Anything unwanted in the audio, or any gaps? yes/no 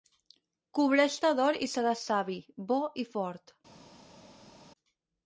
no